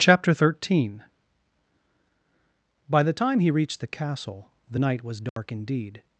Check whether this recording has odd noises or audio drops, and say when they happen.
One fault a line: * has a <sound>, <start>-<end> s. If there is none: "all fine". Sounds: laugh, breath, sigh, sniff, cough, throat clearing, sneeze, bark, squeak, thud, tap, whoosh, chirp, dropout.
* has a dropout, 5.3-5.4 s